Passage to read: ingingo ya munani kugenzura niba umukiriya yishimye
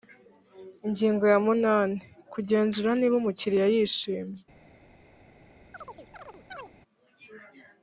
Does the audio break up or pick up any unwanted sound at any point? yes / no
yes